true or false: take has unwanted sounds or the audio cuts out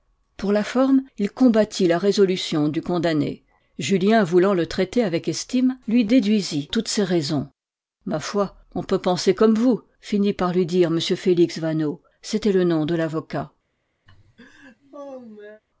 true